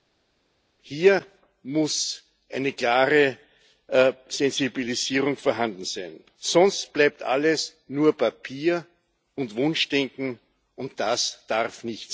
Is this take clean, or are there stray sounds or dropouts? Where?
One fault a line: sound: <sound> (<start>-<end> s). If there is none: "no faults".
no faults